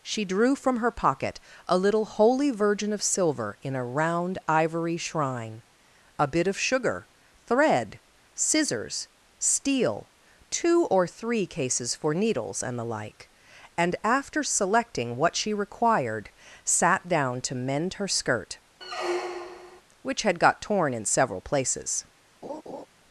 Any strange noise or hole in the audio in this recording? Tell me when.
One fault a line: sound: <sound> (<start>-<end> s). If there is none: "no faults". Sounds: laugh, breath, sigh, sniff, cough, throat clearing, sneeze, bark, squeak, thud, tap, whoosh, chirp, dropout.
sound: squeak (18.8-19.8 s)
sound: laugh (22.4-22.9 s)